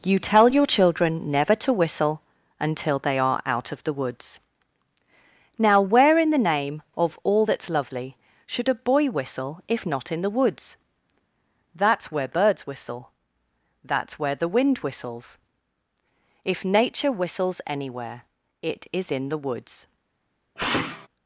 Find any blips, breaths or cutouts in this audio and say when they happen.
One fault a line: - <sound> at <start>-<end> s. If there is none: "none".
- sneeze at 20.6-21.1 s